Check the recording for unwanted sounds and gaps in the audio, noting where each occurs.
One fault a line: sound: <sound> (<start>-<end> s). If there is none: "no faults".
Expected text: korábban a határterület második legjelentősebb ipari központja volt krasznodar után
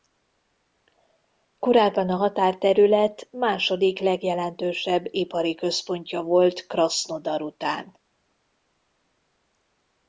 no faults